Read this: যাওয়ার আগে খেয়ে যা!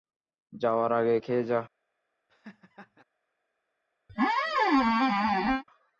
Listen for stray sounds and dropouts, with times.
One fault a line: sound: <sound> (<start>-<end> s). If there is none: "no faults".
sound: laugh (2.3-3.0 s)
sound: squeak (4.1-5.6 s)